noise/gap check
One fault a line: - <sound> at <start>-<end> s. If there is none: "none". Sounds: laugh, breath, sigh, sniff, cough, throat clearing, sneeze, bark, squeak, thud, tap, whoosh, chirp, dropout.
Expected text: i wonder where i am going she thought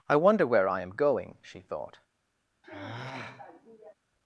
- sigh at 2.6-3.9 s